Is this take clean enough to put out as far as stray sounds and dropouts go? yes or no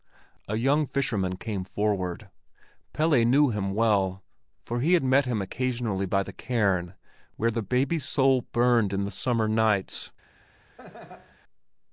no